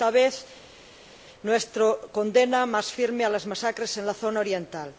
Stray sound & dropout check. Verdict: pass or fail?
pass